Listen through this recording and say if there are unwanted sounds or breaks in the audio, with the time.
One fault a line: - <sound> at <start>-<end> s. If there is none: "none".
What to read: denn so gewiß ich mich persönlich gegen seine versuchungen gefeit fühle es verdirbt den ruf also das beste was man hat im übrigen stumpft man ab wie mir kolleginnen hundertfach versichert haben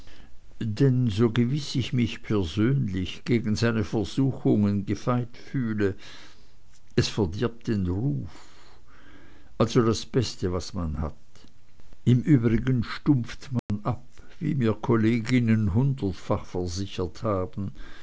- dropout at 13.6-13.7 s